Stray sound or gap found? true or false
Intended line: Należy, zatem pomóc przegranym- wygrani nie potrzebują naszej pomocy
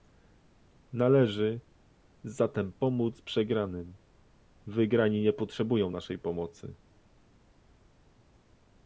false